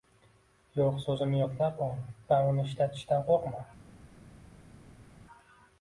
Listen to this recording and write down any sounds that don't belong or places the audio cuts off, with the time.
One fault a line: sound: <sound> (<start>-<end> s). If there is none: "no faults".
no faults